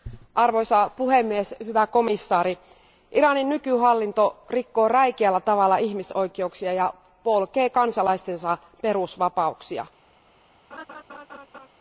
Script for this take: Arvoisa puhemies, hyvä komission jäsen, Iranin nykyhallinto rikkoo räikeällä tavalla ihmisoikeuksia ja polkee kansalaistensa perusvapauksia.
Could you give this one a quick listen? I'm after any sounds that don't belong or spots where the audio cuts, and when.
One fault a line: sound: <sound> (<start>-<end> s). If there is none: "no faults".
sound: laugh (10.7-11.7 s)